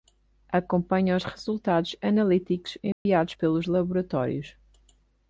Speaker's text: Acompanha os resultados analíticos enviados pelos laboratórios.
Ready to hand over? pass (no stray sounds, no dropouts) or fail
fail